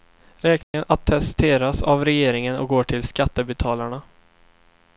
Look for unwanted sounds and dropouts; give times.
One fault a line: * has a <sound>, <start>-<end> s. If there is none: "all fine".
* has a dropout, 0.6-0.7 s